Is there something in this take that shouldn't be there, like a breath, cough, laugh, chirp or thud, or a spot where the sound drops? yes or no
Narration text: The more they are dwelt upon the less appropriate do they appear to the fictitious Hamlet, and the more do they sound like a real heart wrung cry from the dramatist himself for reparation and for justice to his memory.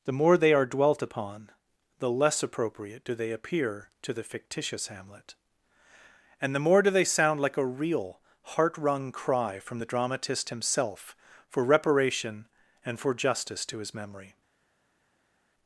no